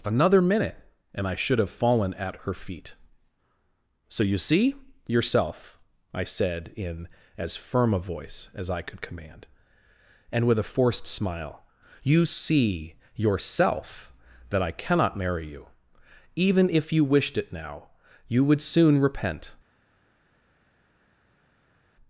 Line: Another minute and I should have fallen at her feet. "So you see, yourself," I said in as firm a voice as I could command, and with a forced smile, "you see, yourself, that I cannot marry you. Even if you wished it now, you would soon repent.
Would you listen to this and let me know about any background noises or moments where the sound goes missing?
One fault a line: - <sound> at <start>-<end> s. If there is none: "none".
none